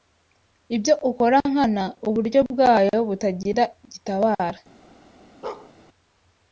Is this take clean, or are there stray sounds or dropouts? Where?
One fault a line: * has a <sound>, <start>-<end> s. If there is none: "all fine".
* has a bark, 5.4-5.7 s